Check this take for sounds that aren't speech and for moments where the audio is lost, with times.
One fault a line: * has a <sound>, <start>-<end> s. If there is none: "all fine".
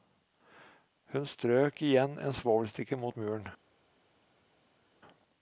all fine